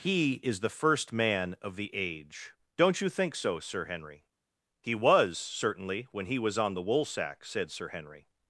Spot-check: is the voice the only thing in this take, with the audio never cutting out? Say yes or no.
yes